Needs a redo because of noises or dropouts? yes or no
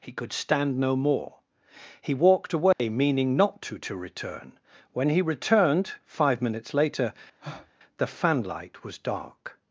yes